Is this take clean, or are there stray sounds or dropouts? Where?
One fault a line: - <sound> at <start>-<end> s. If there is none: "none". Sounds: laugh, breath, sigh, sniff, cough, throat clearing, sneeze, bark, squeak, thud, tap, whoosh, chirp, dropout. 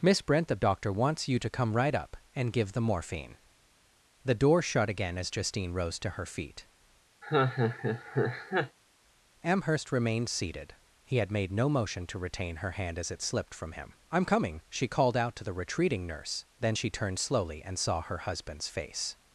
- laugh at 7.2-8.8 s